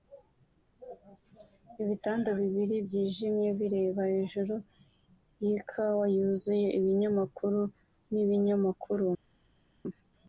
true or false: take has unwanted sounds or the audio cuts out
false